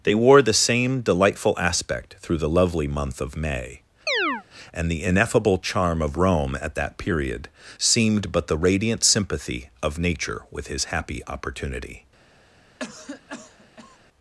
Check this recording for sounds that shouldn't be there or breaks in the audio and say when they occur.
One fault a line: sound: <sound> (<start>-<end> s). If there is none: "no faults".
sound: chirp (4.1-4.4 s)
sound: cough (12.8-14.0 s)